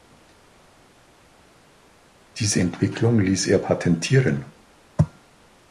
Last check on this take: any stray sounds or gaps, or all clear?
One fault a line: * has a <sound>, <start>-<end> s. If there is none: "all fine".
all fine